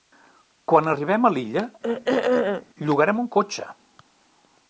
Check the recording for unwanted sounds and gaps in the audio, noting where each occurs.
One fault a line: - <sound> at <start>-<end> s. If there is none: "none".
- throat clearing at 1.8-2.7 s